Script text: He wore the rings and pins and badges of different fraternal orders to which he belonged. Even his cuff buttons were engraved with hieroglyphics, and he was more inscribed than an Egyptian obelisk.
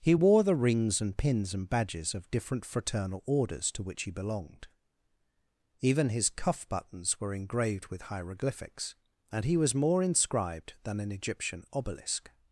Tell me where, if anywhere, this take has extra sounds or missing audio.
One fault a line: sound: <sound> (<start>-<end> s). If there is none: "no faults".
no faults